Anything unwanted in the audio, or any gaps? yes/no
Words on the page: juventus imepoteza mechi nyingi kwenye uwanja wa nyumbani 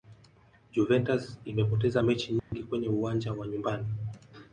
yes